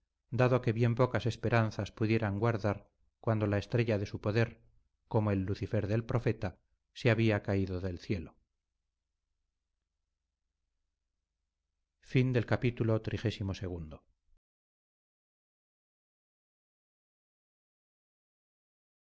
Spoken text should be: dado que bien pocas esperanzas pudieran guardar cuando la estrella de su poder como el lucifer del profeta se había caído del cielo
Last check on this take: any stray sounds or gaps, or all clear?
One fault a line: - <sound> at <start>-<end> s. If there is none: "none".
none